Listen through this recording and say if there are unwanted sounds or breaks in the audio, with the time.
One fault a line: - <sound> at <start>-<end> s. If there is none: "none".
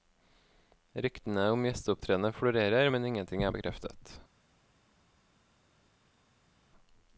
none